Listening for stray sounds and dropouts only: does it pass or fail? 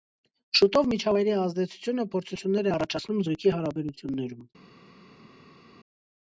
pass